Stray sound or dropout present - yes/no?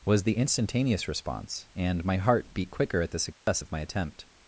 yes